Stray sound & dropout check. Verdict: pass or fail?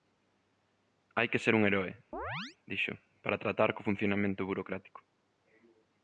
fail